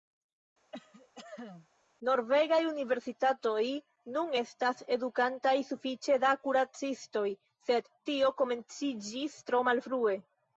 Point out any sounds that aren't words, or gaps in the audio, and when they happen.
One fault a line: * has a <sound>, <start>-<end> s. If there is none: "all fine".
* has a cough, 0.7-1.7 s